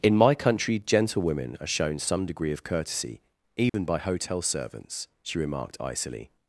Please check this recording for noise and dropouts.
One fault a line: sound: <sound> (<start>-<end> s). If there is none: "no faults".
sound: dropout (3.7-3.7 s)